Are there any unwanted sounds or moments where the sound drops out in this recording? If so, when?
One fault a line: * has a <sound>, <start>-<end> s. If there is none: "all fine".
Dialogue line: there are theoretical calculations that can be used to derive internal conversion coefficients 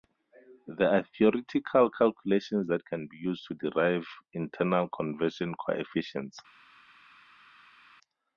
all fine